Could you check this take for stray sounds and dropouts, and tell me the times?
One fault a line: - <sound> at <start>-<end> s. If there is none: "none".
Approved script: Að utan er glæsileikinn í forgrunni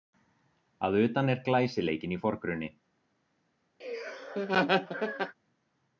- laugh at 3.8-5.4 s